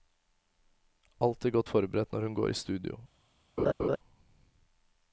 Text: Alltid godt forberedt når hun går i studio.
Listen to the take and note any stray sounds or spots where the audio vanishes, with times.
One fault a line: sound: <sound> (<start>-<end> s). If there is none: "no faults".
sound: laugh (3.6-4.0 s)